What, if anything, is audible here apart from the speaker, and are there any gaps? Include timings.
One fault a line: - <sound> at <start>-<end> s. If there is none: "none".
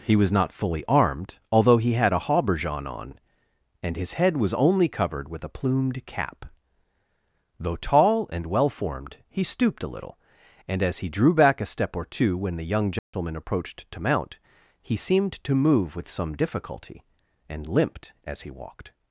- dropout at 13.0-13.1 s